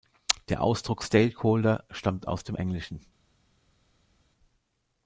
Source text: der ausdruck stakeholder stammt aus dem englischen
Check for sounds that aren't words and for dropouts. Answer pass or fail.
pass